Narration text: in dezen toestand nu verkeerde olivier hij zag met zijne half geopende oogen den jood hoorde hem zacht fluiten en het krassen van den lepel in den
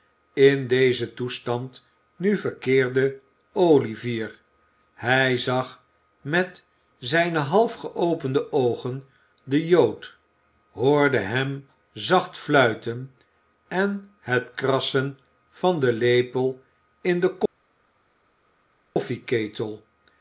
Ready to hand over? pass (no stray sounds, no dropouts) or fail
pass